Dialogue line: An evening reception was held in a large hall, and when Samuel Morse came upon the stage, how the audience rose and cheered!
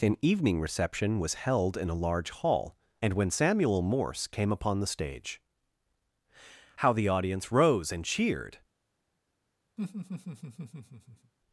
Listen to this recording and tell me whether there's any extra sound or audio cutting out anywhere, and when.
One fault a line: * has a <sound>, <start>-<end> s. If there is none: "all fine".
* has a laugh, 9.8-11.3 s